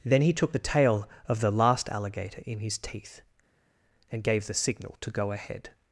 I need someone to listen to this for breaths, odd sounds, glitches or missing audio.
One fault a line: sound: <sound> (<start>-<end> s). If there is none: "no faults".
no faults